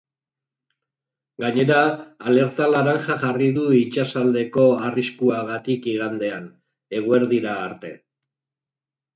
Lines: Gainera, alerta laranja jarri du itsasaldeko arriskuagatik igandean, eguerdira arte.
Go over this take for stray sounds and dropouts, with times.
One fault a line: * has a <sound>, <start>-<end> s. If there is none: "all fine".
all fine